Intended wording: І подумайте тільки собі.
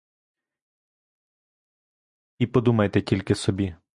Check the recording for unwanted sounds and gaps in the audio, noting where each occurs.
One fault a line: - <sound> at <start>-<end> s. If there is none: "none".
none